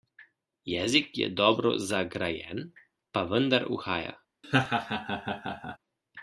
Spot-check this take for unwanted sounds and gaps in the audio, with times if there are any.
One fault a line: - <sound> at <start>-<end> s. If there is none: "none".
- laugh at 4.4-5.8 s